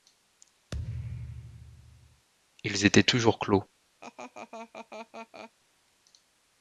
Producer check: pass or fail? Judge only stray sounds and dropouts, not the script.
fail